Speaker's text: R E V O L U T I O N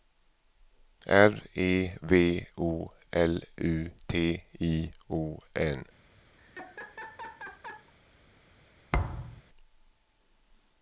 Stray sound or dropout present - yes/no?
yes